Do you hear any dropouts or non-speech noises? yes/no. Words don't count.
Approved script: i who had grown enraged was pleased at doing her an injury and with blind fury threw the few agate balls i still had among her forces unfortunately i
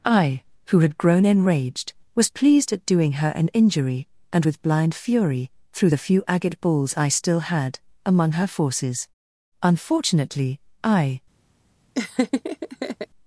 yes